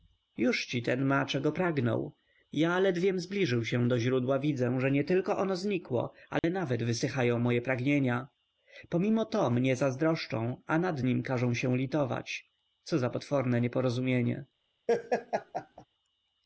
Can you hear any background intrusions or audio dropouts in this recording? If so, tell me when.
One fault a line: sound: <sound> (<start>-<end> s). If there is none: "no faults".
sound: dropout (6.4-6.4 s)
sound: laugh (14.9-15.9 s)